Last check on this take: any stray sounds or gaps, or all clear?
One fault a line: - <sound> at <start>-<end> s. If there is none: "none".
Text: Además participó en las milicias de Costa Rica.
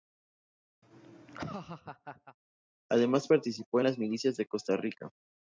- laugh at 0.8-2.4 s